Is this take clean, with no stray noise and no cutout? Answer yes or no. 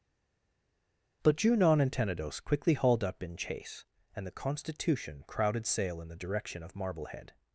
yes